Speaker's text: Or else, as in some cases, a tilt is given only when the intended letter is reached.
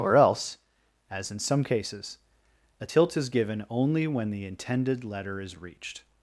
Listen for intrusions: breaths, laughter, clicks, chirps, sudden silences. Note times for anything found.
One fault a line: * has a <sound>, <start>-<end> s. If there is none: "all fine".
all fine